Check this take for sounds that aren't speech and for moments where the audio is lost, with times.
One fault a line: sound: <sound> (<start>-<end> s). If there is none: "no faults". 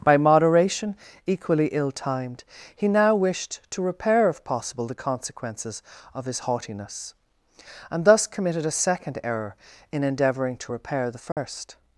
sound: dropout (11.3-11.4 s)